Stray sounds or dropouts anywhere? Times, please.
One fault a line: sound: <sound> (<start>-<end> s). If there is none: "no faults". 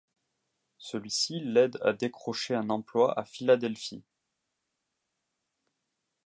no faults